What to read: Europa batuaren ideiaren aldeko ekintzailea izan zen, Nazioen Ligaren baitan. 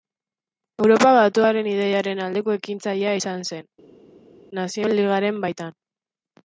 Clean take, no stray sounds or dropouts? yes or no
yes